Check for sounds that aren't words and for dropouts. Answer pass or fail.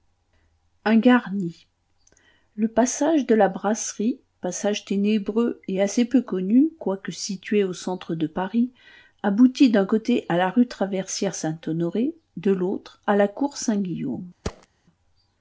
fail